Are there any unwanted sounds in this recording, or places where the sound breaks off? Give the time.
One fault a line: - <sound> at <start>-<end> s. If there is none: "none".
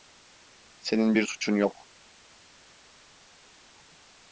none